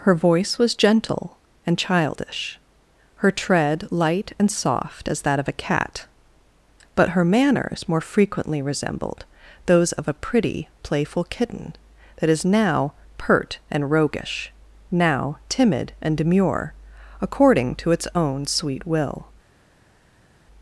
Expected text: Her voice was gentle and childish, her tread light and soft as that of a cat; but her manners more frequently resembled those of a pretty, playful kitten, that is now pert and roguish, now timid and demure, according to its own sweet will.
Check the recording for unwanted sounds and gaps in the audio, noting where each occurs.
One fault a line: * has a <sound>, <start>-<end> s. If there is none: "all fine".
all fine